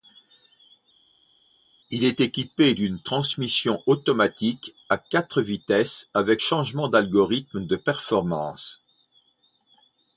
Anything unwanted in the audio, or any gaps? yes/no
no